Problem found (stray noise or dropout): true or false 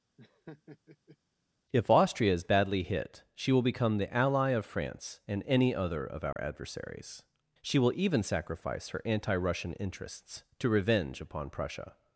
true